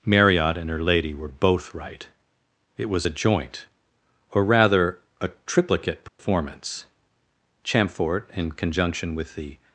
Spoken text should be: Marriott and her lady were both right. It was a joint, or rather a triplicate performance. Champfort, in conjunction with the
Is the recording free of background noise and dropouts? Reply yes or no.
no